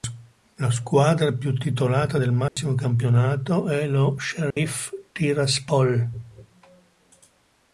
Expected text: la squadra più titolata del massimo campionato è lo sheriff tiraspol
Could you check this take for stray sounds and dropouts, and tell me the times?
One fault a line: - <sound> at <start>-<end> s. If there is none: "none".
- dropout at 2.5-2.6 s
- dropout at 4.5-4.6 s